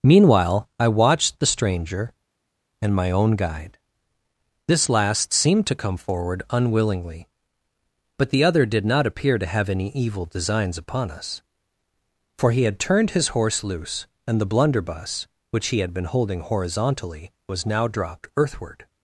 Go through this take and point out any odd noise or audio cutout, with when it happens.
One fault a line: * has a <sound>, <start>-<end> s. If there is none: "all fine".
all fine